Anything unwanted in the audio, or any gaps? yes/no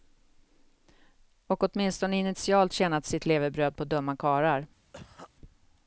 yes